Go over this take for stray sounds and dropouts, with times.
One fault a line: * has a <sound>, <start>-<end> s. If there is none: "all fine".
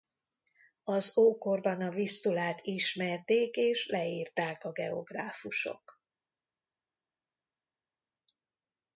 all fine